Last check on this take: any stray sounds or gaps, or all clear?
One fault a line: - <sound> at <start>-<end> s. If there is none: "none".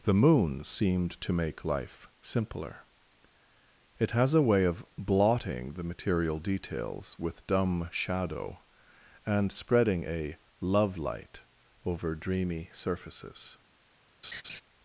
- laugh at 14.2-14.6 s